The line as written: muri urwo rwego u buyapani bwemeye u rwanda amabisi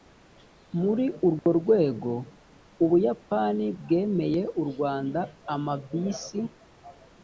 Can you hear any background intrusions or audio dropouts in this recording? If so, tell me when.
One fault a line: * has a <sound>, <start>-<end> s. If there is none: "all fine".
* has a dropout, 1.4-1.5 s